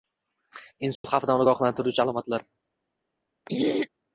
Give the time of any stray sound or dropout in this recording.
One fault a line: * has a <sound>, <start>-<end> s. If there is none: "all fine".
* has a dropout, 0.9-1.0 s
* has a throat clearing, 3.5-3.9 s